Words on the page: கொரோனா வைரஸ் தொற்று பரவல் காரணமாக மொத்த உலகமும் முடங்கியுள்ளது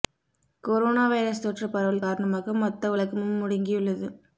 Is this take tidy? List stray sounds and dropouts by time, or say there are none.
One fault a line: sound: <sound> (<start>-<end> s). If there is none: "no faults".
no faults